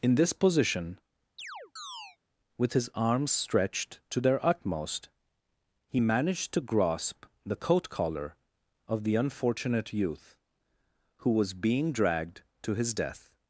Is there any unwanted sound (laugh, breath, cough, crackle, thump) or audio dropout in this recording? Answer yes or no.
yes